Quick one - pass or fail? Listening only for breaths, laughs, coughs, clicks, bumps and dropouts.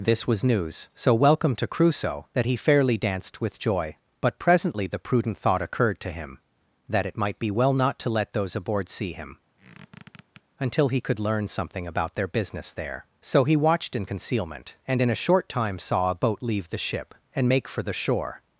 fail